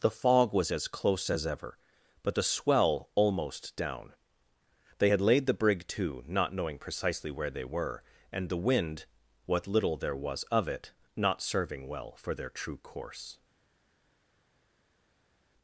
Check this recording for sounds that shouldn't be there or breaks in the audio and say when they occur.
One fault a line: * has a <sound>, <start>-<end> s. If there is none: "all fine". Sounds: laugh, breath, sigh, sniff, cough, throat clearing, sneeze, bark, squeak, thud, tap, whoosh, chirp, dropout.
all fine